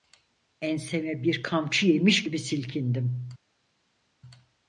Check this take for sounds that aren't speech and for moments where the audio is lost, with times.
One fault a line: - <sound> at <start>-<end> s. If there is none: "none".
none